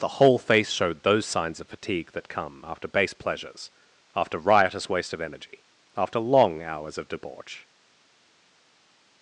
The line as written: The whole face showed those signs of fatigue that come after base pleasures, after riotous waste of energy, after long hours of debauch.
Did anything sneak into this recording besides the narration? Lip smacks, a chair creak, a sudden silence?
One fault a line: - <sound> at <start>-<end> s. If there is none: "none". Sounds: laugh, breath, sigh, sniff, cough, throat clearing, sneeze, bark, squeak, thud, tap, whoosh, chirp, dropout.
none